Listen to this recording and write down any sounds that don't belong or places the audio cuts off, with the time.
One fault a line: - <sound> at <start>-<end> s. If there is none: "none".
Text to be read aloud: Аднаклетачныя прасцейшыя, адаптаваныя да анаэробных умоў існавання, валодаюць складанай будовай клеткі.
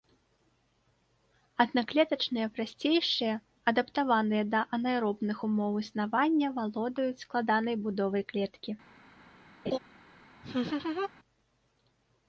- laugh at 9.7-9.8 s
- laugh at 10.4-11.1 s